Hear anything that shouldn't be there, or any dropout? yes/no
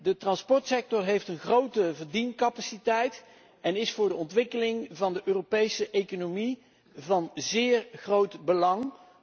no